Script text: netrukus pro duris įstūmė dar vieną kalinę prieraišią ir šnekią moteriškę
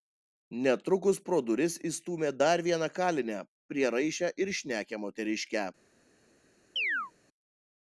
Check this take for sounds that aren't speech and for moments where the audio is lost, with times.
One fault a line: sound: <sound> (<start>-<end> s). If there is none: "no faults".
sound: chirp (6.8-7.1 s)